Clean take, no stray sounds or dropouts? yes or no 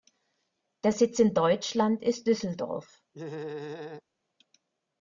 no